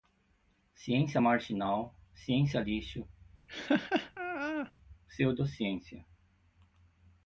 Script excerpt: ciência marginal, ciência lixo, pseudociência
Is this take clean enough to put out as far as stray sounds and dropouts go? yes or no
no